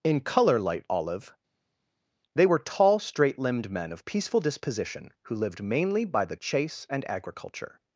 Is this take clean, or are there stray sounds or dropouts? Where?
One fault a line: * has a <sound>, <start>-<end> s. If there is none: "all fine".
all fine